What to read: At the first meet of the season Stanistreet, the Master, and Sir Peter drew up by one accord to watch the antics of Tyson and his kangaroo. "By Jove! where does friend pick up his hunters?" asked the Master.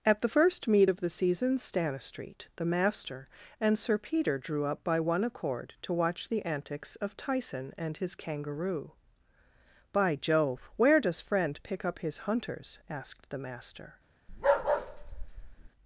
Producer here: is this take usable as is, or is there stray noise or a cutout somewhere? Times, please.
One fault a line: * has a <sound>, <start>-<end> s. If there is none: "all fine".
* has a bark, 14.3-15.7 s